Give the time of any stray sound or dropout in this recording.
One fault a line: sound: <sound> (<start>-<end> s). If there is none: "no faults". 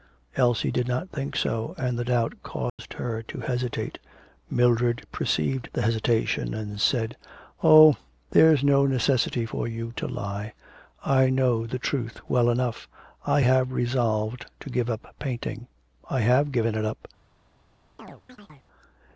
sound: dropout (2.7-2.8 s)
sound: chirp (18.0-18.7 s)